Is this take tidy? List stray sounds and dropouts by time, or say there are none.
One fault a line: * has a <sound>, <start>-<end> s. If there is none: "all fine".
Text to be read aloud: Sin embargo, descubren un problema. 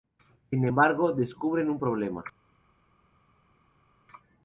all fine